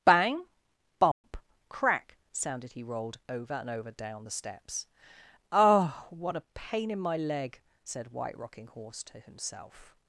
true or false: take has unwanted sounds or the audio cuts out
true